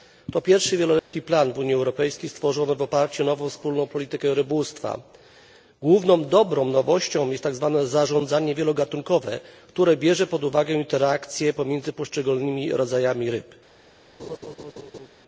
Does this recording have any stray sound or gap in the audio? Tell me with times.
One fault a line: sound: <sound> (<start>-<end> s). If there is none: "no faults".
sound: dropout (1.0-1.1 s)
sound: laugh (14.2-15.1 s)